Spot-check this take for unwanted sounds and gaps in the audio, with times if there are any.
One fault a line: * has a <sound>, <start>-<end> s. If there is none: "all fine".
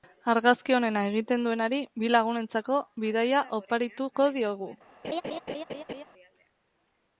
* has a laugh, 5.0-6.0 s